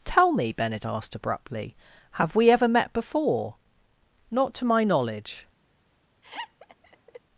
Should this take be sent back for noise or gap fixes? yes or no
yes